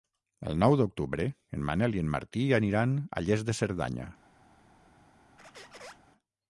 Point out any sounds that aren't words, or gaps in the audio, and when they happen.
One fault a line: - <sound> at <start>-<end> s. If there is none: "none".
- squeak at 5.4-6.0 s